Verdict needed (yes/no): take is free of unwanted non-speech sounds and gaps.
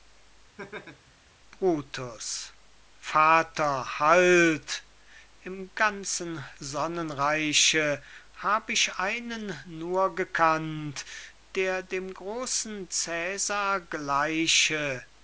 no